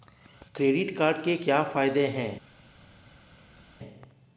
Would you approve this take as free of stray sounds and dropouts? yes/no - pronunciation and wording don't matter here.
yes